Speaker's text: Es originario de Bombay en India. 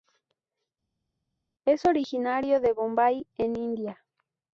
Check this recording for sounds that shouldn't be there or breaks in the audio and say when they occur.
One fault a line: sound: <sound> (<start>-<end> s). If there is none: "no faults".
no faults